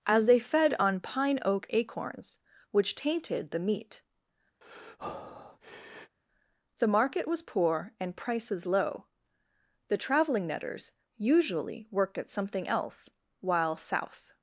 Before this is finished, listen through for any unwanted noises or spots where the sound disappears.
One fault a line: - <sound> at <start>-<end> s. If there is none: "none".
- breath at 4.6-6.2 s